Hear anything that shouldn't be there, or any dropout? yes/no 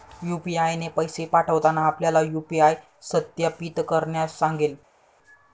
no